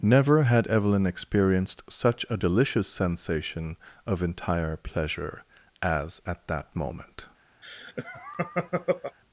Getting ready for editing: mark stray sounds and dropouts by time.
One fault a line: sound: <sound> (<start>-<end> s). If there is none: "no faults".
sound: laugh (7.6-9.2 s)